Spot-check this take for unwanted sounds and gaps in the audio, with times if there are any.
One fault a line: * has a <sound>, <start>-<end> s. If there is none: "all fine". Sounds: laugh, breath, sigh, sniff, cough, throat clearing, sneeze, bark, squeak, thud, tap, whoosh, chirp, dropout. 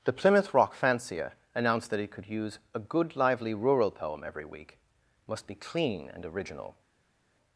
all fine